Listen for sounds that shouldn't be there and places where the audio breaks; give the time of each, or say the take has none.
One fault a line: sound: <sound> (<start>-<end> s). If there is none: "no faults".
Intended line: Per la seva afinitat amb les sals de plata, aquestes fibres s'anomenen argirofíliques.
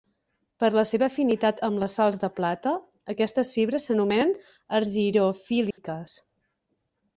sound: dropout (5.7-5.8 s)